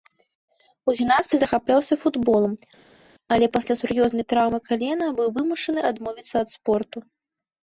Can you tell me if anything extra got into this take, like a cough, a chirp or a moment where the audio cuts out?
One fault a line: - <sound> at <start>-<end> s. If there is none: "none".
none